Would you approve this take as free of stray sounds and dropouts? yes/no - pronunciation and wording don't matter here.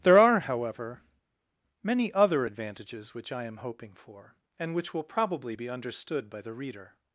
yes